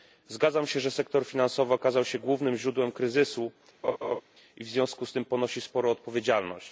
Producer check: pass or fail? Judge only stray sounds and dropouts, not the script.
fail